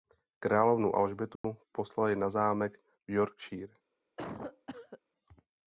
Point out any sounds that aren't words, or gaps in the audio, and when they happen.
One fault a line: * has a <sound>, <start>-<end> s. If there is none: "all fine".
* has a dropout, 1.4-1.4 s
* has a cough, 4.2-5.0 s